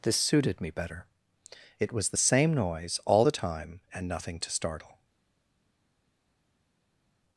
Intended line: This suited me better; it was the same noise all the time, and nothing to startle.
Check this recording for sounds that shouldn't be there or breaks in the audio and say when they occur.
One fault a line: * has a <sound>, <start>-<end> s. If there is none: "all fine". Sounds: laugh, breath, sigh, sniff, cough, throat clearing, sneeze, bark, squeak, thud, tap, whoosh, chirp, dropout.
all fine